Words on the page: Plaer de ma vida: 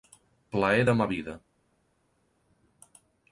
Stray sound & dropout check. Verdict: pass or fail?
pass